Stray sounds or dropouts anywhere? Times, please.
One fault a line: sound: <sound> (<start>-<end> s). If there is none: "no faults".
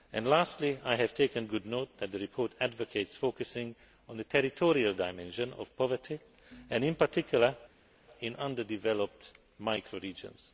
no faults